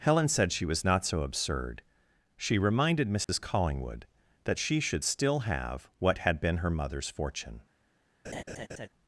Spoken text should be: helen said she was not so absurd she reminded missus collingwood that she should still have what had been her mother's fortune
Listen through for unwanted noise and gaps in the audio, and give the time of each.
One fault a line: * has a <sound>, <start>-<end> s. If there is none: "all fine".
* has a dropout, 3.2-3.3 s
* has a laugh, 8.2-8.9 s